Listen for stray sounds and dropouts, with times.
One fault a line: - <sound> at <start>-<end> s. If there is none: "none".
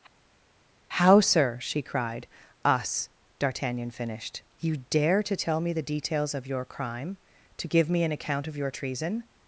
none